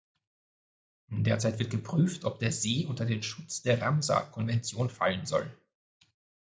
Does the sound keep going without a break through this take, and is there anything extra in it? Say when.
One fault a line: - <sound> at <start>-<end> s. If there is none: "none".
none